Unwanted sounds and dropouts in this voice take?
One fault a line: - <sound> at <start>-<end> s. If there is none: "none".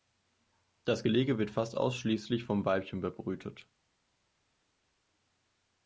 none